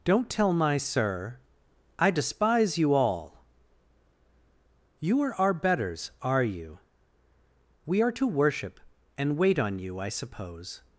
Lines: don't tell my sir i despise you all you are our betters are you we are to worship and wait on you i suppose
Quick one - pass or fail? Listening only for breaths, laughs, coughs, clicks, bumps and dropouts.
pass